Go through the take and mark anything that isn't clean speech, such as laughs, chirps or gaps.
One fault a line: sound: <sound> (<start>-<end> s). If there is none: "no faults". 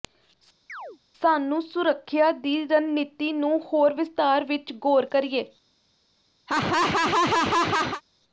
sound: chirp (0.7-1.0 s)
sound: laugh (6.5-8.0 s)